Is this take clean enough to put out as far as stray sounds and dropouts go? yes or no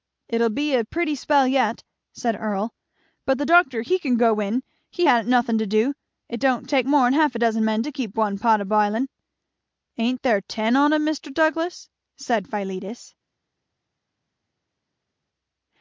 yes